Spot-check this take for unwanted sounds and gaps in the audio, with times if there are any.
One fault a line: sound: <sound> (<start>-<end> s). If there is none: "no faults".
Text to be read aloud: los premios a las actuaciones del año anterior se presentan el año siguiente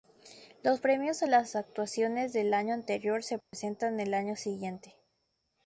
sound: dropout (3.4-3.5 s)